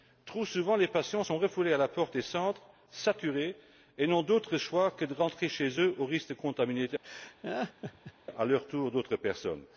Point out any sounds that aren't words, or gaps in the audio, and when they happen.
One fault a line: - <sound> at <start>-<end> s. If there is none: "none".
- laugh at 7.0-8.1 s